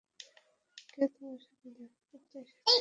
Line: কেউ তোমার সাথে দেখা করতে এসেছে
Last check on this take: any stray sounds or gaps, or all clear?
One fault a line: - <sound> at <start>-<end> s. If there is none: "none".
none